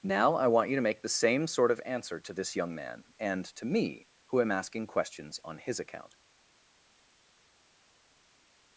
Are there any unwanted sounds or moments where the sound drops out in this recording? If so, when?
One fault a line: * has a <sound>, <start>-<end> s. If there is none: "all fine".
all fine